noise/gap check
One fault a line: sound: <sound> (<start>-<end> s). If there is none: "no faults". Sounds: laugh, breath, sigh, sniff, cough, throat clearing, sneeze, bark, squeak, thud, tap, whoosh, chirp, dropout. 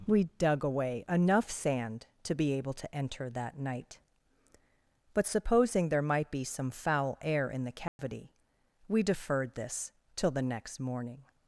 sound: dropout (7.9-8.0 s)